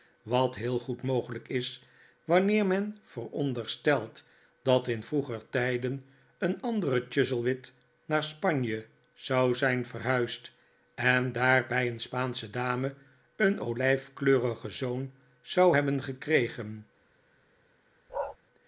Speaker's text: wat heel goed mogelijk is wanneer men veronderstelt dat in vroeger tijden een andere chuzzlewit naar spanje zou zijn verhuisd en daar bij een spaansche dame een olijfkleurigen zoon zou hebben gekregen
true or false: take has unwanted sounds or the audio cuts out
true